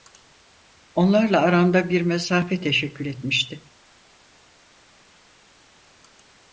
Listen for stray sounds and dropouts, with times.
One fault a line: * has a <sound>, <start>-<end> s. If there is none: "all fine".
all fine